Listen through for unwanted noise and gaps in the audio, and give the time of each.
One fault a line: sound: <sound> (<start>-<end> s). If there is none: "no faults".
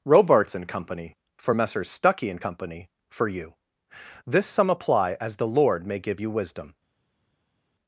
no faults